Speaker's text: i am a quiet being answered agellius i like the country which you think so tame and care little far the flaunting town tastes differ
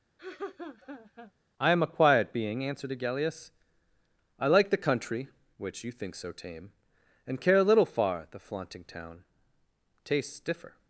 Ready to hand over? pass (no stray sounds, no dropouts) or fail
fail